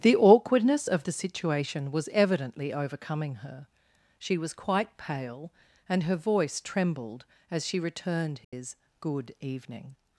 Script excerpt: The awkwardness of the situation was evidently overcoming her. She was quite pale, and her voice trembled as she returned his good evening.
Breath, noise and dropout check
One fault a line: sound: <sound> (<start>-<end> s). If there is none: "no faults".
sound: dropout (8.4-8.5 s)